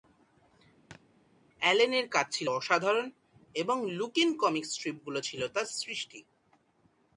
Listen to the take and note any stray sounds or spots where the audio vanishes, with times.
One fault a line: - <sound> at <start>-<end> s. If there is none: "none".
- thud at 0.9-1.0 s